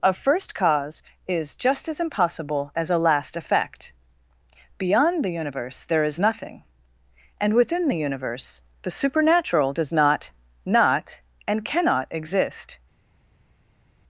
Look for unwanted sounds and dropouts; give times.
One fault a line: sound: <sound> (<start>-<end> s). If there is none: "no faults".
no faults